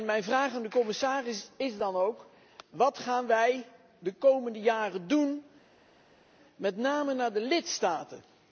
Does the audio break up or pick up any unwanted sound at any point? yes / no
no